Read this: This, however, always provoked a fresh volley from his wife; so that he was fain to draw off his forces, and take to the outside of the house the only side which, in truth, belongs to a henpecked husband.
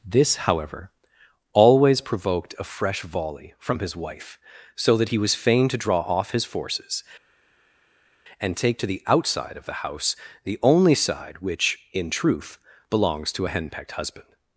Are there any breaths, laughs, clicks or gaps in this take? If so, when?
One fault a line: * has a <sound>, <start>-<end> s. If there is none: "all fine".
all fine